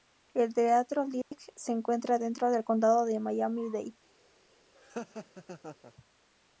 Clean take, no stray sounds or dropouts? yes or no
no